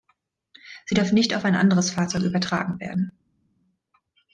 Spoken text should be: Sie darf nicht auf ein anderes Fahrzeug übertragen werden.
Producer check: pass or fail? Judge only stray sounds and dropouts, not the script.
pass